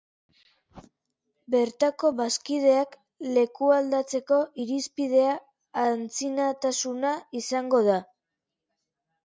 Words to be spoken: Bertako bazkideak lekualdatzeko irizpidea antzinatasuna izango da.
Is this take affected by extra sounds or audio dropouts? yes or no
no